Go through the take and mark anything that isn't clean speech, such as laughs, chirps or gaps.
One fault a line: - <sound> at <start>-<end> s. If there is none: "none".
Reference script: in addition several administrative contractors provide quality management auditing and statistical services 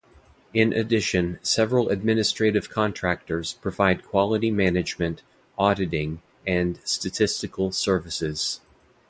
none